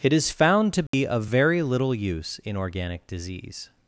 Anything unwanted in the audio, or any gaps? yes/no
yes